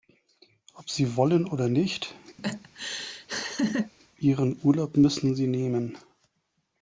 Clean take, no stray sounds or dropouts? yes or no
no